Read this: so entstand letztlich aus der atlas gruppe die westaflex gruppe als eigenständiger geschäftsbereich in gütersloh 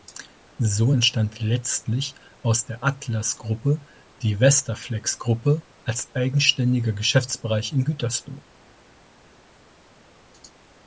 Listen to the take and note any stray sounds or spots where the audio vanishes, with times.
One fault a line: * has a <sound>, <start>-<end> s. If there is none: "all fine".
all fine